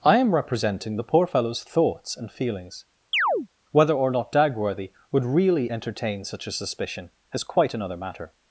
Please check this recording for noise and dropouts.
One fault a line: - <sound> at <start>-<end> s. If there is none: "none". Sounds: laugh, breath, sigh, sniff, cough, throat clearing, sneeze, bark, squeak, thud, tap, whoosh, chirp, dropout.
- chirp at 3.1-3.5 s